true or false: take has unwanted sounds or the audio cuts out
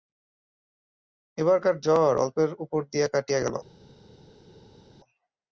false